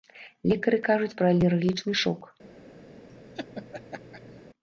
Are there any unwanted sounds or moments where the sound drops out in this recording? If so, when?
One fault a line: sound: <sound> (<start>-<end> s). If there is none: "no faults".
sound: laugh (3.1-4.4 s)